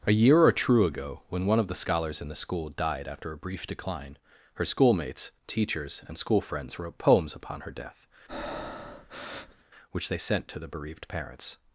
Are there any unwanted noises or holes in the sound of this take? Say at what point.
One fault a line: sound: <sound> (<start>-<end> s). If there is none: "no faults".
sound: breath (8.3-9.6 s)